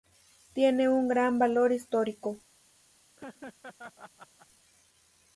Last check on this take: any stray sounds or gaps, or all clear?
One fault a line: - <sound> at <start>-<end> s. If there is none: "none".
- laugh at 3.2-4.5 s